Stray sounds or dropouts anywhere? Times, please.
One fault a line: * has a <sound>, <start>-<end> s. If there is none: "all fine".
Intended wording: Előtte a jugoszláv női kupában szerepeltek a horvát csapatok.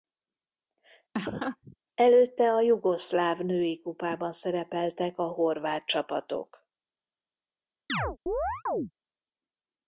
* has a laugh, 1.1-1.8 s
* has a chirp, 7.9-8.9 s